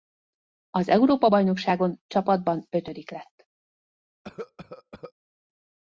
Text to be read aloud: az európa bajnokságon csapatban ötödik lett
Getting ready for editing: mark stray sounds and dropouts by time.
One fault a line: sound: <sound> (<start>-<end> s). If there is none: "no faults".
sound: cough (4.2-5.1 s)